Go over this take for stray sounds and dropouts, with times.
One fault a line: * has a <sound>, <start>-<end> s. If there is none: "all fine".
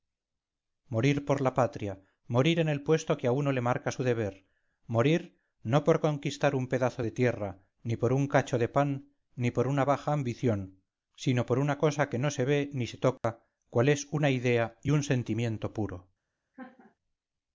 * has a dropout, 13.2-13.2 s
* has a laugh, 16.5-17.0 s